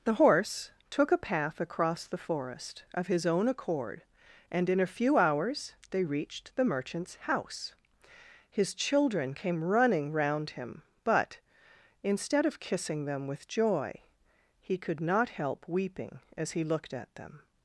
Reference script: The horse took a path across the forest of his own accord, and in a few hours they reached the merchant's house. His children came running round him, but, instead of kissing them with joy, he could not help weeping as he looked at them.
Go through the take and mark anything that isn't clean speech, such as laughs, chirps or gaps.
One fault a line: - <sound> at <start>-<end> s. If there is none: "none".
none